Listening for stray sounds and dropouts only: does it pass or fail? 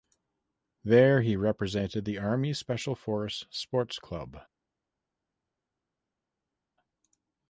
pass